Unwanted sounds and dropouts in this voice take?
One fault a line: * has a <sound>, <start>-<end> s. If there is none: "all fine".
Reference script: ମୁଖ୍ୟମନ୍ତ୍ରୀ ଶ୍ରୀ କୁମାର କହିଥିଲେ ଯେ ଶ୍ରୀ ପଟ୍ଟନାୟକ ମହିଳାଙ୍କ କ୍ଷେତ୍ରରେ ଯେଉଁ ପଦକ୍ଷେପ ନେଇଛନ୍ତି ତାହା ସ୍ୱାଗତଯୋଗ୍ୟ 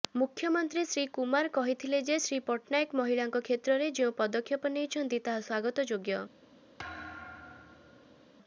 * has a thud, 6.8-8.3 s